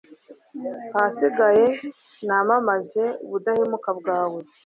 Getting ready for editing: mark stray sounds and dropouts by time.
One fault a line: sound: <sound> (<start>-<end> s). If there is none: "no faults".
no faults